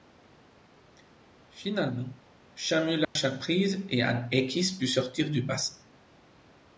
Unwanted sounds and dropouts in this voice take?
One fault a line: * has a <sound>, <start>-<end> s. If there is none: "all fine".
* has a dropout, 3.0-3.2 s